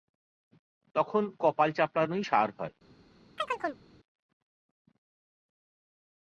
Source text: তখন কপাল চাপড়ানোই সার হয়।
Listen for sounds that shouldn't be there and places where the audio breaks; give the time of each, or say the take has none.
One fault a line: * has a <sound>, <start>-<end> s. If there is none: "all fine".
* has a chirp, 3.4-3.8 s